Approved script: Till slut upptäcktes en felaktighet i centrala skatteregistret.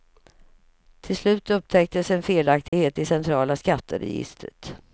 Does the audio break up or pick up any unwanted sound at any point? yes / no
yes